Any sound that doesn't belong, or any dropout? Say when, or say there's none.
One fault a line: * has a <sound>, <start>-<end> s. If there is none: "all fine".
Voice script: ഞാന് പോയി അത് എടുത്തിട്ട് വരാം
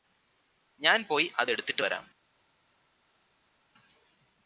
all fine